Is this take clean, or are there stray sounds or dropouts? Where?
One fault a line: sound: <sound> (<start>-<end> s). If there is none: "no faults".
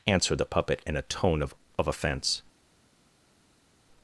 no faults